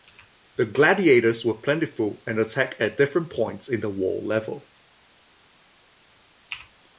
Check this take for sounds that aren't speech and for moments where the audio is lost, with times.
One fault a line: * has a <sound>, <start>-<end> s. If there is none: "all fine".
all fine